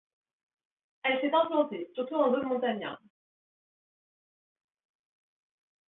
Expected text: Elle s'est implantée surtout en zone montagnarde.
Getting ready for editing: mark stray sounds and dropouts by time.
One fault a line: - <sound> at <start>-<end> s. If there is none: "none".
none